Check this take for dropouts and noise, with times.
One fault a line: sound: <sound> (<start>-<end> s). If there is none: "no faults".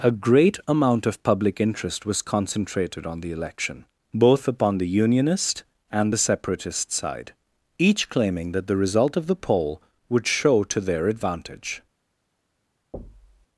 sound: thud (12.9-13.5 s)